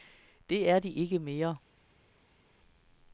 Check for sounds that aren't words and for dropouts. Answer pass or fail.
pass